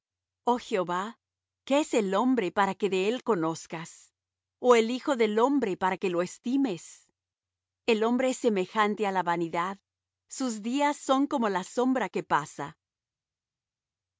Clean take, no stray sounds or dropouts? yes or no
yes